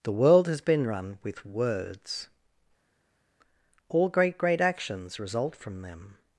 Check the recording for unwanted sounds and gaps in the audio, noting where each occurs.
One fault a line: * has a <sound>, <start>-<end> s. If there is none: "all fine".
all fine